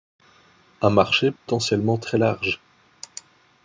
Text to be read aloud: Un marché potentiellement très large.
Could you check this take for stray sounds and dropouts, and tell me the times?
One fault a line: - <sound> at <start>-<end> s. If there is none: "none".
- dropout at 1.4-1.5 s